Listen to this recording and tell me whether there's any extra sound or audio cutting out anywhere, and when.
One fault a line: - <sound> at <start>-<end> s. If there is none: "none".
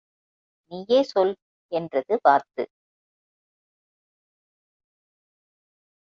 none